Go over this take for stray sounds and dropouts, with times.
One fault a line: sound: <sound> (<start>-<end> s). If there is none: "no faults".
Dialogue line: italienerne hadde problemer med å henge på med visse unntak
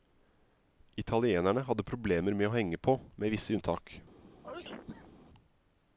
sound: sneeze (4.4-5.1 s)